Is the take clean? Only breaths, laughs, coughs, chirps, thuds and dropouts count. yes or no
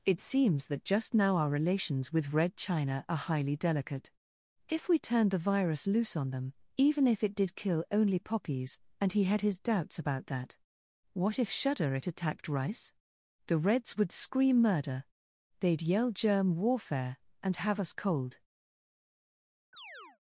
no